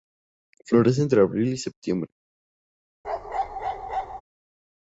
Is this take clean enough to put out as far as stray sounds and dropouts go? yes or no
no